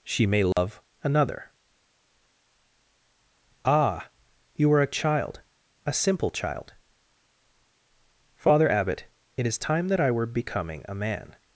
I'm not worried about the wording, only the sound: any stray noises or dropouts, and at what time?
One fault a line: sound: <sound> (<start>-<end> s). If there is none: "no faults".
sound: dropout (0.5-0.6 s)